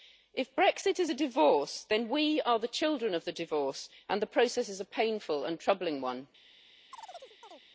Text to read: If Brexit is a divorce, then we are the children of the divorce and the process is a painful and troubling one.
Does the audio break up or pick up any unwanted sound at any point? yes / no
yes